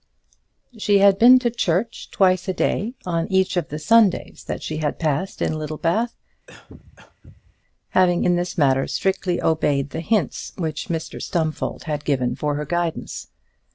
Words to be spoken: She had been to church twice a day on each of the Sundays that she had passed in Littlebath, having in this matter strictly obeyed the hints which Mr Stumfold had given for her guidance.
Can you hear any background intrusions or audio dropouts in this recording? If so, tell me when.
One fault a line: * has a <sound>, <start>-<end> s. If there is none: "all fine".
* has a cough, 6.5-7.6 s